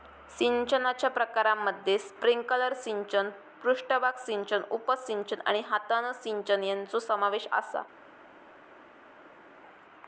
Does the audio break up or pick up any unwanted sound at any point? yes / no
no